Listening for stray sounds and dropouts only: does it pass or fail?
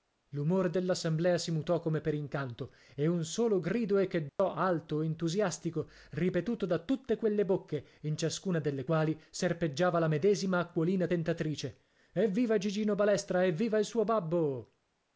fail